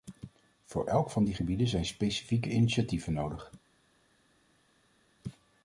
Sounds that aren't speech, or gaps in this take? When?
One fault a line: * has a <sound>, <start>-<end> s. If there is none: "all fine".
all fine